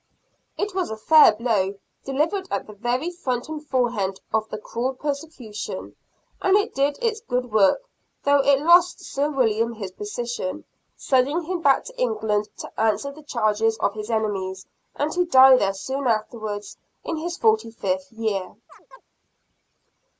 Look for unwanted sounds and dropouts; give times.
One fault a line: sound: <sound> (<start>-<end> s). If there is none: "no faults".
sound: chirp (18.7-19.0 s)